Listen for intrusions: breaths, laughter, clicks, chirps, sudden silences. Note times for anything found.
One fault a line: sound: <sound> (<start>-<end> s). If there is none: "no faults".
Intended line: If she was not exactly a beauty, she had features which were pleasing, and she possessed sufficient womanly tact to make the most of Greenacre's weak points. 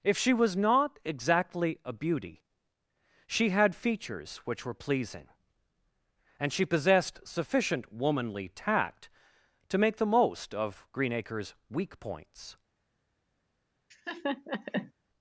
sound: laugh (13.9-14.9 s)